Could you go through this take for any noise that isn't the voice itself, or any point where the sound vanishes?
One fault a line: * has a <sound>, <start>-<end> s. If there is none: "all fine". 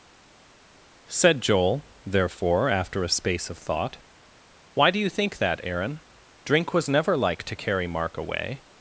all fine